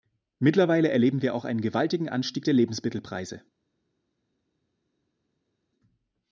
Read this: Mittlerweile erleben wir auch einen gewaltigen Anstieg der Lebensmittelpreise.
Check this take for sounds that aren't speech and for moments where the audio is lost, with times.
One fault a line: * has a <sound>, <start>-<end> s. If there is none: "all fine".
all fine